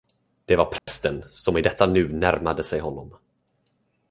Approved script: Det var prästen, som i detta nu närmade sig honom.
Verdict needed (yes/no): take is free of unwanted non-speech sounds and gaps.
no